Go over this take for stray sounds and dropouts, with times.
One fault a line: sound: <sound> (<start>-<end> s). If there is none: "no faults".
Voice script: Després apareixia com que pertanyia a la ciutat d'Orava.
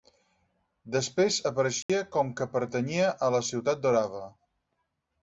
sound: dropout (1.8-1.9 s)